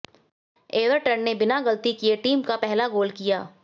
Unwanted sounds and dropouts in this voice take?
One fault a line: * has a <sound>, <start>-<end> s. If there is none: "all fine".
all fine